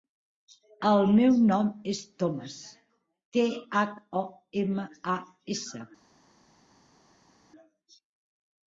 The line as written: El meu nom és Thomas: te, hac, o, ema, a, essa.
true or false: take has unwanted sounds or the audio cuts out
false